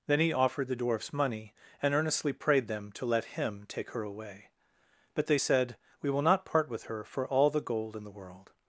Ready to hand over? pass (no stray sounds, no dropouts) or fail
pass